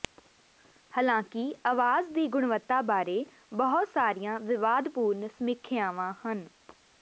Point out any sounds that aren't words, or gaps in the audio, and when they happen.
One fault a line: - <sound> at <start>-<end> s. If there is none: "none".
none